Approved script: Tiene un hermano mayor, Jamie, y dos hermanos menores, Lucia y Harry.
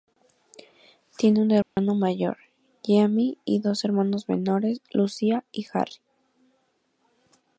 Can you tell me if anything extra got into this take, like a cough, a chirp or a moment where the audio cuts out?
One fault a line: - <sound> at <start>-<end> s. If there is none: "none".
- dropout at 1.6-1.8 s